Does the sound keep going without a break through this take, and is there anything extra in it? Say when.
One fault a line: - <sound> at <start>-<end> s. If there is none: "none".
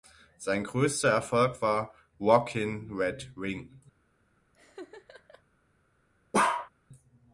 - laugh at 4.5-5.4 s
- bark at 6.3-6.7 s